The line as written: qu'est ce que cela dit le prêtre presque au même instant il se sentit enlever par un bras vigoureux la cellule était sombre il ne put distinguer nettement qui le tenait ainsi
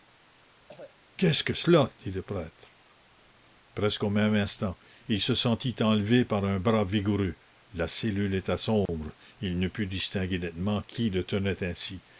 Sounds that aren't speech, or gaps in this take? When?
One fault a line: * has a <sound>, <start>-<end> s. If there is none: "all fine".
* has a cough, 0.7-1.0 s
* has a dropout, 8.9-8.9 s